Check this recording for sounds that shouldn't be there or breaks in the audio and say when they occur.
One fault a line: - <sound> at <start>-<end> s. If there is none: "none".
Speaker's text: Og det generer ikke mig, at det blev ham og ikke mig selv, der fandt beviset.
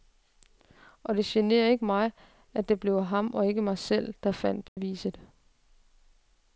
- dropout at 4.7-4.8 s